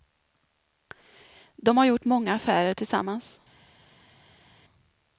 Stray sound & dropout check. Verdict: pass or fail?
pass